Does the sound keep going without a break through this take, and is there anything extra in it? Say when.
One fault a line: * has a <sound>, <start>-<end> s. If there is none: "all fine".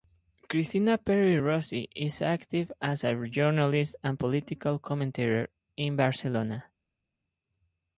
all fine